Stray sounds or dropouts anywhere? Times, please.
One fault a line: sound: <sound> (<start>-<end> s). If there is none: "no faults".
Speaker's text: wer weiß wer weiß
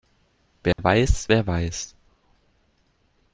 sound: dropout (0.7-0.8 s)